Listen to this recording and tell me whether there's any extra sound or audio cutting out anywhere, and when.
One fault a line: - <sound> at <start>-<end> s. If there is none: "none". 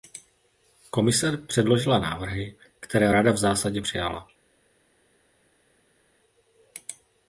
none